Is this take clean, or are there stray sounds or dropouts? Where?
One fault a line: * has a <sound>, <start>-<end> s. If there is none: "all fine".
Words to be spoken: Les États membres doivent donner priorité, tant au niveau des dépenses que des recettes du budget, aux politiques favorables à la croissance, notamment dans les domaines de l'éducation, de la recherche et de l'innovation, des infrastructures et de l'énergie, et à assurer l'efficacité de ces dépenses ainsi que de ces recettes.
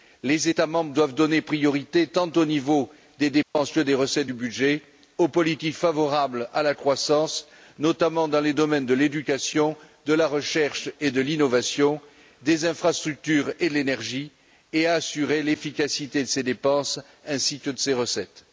* has a dropout, 3.4-3.6 s